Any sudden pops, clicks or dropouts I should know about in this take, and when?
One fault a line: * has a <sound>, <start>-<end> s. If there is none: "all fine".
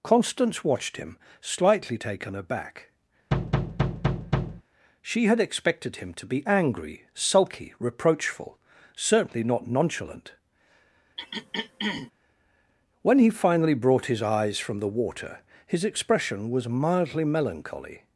* has a thud, 3.3-4.6 s
* has a throat clearing, 11.2-12.1 s